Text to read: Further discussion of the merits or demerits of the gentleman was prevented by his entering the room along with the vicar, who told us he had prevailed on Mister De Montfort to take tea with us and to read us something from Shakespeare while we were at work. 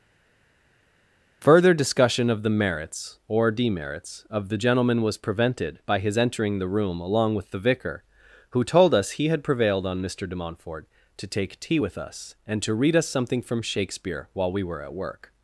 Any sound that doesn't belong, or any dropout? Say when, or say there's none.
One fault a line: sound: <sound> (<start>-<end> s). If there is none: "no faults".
no faults